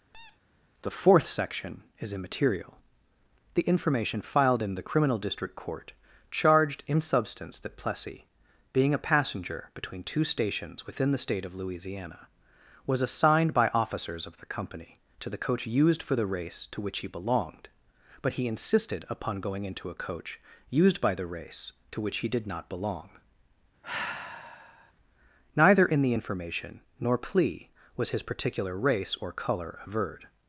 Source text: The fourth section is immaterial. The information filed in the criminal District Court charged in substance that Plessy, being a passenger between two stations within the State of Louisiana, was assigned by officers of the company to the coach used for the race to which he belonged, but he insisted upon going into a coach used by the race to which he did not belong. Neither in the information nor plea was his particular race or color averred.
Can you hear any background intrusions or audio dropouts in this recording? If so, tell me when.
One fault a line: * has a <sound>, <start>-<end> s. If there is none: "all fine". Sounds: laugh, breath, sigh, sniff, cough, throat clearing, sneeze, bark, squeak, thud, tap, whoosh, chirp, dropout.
* has a squeak, 0.1-0.4 s
* has a sigh, 23.8-24.9 s